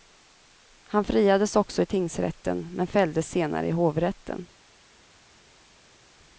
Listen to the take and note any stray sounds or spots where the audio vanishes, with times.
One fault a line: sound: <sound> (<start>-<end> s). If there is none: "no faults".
no faults